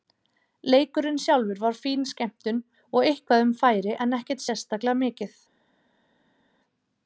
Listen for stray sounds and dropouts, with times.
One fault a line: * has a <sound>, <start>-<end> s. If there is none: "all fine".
all fine